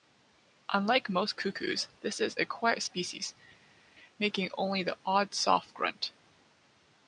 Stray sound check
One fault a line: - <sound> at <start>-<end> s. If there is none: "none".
none